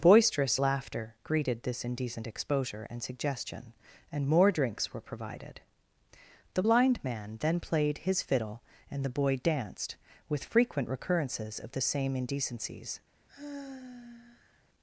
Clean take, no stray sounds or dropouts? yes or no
no